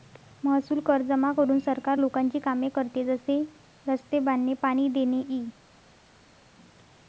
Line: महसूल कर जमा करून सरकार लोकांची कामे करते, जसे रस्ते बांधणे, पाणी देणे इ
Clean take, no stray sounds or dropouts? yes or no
yes